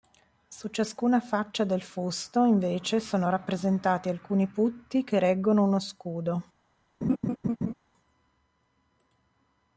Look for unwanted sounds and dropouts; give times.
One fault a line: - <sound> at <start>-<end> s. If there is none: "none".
- laugh at 7.0-7.7 s